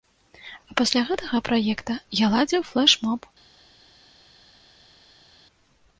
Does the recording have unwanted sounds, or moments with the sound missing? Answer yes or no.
no